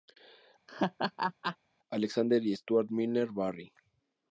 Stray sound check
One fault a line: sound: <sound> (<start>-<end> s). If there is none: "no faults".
sound: laugh (0.7-1.6 s)